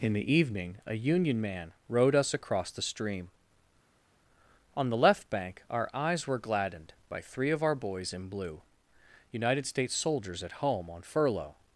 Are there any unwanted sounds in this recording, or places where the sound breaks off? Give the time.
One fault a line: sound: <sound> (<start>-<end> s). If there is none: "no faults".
no faults